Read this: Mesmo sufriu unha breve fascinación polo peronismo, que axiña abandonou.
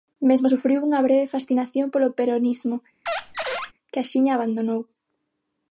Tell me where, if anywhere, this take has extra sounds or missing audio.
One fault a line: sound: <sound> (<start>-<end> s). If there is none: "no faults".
sound: squeak (3.1-3.7 s)